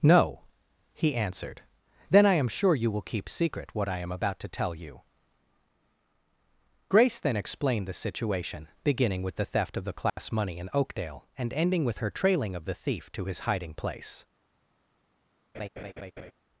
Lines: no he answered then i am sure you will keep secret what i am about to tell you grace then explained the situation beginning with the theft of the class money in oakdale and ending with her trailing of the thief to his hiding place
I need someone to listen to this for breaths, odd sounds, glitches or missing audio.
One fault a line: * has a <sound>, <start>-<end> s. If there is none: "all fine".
* has a dropout, 10.1-10.2 s
* has a laugh, 15.5-16.3 s